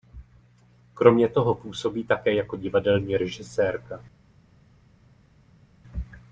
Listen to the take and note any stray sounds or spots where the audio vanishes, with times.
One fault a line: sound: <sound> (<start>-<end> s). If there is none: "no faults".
no faults